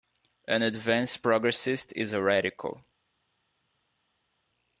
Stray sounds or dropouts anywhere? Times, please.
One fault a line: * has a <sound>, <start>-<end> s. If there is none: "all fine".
all fine